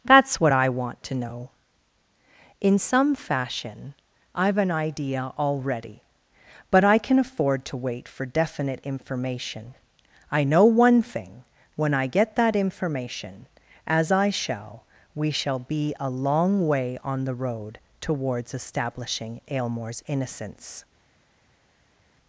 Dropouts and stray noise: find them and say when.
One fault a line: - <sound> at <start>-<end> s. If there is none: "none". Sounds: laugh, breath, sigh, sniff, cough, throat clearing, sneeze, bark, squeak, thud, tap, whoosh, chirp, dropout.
none